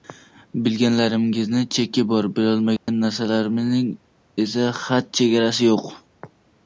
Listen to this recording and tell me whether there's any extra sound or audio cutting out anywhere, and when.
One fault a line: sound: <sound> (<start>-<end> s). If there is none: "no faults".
sound: dropout (2.8-2.9 s)